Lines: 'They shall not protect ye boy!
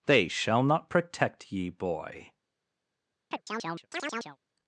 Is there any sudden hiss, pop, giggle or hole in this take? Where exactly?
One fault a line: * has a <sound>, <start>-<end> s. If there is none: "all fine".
* has a chirp, 3.3-4.4 s